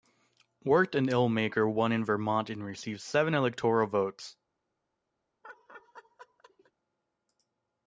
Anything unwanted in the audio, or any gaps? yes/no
yes